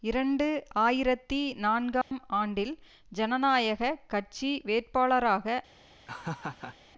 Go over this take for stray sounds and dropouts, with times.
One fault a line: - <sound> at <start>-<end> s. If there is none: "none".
- dropout at 2.0-2.1 s
- laugh at 6.1-6.8 s